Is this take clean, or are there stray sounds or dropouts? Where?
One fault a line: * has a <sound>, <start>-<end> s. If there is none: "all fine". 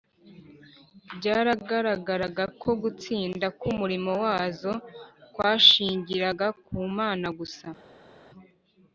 all fine